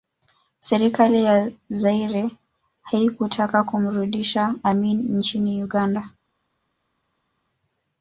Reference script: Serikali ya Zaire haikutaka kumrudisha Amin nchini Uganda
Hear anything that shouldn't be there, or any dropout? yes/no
no